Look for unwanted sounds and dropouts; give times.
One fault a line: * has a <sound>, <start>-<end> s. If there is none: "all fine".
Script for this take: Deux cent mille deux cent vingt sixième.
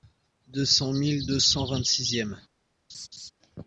* has a laugh, 2.9-3.3 s